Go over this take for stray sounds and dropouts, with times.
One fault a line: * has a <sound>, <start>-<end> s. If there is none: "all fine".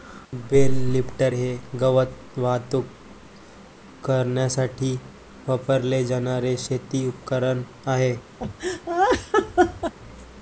* has a laugh, 8.4-9.9 s